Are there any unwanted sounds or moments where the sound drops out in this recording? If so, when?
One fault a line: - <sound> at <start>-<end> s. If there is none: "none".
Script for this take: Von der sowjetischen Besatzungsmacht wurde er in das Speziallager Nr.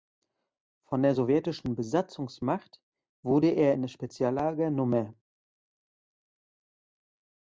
none